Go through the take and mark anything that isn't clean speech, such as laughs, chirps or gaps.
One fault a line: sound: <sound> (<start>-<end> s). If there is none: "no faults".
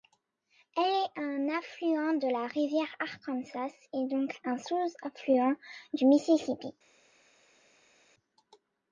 no faults